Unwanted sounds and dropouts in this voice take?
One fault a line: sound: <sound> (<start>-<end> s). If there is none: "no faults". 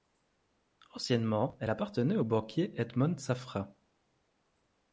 no faults